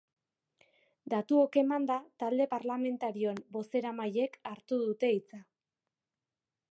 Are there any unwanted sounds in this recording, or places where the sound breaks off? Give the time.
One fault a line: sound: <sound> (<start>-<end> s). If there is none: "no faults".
no faults